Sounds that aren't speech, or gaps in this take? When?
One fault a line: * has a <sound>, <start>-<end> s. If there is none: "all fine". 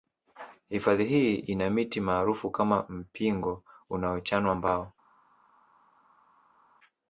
all fine